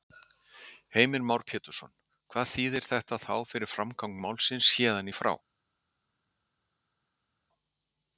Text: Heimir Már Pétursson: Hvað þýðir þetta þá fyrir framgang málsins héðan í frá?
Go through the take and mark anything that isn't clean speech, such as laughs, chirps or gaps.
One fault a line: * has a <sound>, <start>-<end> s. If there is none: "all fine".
all fine